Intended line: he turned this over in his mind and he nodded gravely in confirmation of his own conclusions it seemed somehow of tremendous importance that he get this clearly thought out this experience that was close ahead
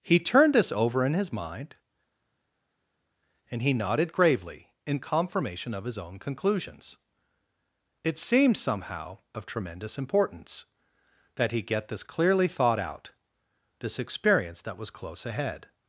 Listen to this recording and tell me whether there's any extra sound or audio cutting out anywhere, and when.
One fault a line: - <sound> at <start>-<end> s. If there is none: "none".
none